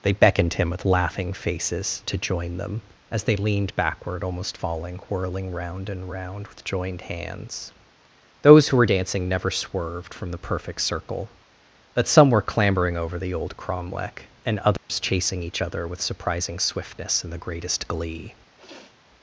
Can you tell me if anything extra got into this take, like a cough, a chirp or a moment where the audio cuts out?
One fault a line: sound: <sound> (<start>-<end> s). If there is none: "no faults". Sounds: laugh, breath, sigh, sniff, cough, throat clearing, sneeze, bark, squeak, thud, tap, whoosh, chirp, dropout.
sound: dropout (14.8-14.9 s)
sound: sniff (18.6-19.0 s)